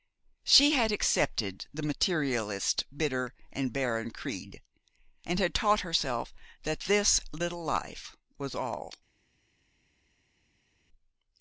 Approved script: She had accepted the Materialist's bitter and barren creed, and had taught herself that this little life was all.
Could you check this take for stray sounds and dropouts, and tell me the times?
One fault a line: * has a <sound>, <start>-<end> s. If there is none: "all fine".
all fine